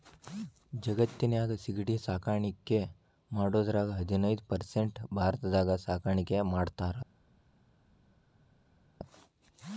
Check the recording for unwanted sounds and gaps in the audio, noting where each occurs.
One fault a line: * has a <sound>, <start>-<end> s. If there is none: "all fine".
all fine